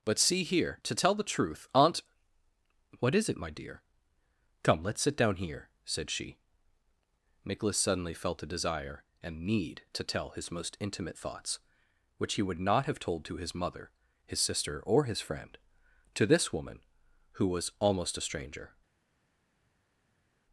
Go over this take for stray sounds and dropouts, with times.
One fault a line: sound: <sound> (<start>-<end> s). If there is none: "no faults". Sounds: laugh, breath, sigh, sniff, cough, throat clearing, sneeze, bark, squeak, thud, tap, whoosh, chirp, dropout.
no faults